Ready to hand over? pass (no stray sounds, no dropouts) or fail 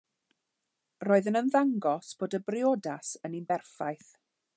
pass